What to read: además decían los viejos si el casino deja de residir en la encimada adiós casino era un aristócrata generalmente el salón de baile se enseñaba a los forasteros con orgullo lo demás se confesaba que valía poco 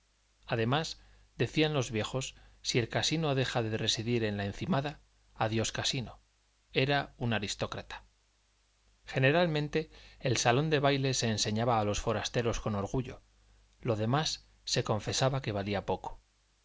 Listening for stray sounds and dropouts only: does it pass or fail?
pass